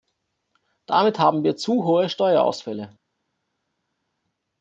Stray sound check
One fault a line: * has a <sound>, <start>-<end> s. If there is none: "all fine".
all fine